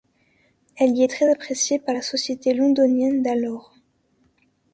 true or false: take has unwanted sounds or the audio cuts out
false